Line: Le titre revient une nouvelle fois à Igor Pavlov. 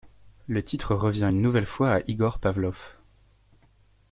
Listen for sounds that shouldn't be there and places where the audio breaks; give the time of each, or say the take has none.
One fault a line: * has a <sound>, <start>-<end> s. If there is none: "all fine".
all fine